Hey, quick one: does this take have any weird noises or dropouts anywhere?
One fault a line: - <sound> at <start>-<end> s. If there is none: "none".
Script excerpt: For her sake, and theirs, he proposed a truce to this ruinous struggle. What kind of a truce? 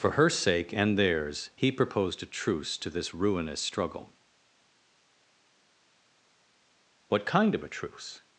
none